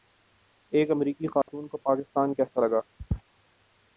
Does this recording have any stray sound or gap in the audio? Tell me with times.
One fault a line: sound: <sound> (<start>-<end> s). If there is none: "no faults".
sound: dropout (1.4-1.5 s)